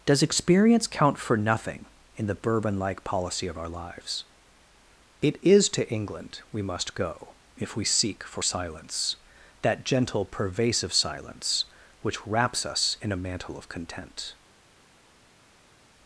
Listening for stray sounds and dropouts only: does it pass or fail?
pass